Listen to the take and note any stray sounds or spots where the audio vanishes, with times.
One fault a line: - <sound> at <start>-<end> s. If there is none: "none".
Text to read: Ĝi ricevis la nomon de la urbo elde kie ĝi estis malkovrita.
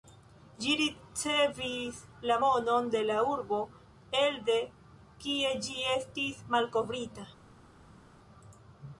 none